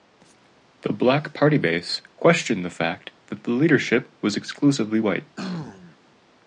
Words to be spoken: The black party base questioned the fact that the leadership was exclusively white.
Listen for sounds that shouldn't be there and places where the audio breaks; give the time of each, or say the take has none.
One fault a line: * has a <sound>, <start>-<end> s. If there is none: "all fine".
* has a throat clearing, 5.4-6.0 s